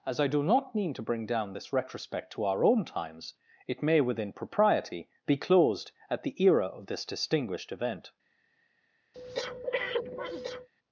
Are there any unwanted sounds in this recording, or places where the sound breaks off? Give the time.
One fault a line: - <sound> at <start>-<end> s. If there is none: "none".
- breath at 9.1-10.7 s